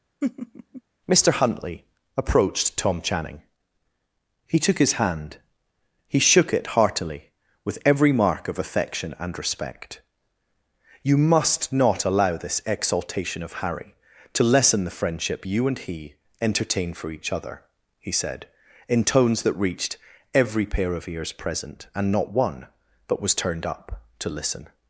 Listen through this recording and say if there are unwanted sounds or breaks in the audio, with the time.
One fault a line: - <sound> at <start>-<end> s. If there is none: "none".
- laugh at 0.2-0.8 s